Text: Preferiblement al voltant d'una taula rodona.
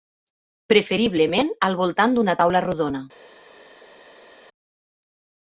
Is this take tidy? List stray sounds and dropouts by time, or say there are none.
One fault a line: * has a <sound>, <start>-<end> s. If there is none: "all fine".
all fine